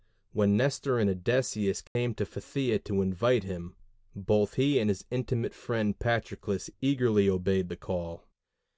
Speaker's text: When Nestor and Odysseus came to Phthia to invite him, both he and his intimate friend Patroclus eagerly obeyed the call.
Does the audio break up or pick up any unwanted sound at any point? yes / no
yes